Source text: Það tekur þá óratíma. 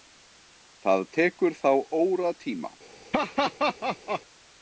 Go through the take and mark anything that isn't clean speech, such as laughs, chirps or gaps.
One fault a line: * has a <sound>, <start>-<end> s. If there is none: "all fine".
* has a laugh, 3.1-4.2 s